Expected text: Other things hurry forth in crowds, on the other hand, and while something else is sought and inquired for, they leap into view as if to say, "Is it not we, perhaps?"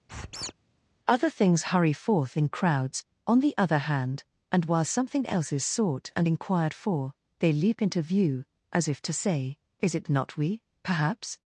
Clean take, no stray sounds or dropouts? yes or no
no